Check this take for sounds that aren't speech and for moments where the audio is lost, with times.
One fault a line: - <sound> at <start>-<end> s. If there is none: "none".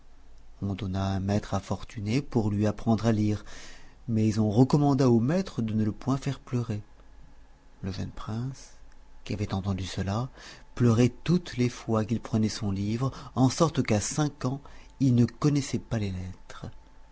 none